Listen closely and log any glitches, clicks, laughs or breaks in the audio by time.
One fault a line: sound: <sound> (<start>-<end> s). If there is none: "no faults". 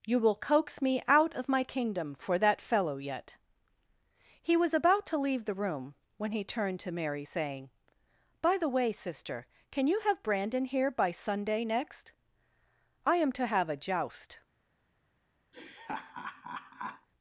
sound: laugh (15.5-17.1 s)